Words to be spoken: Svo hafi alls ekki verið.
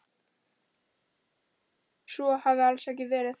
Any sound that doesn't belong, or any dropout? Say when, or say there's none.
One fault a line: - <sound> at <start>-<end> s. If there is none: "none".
none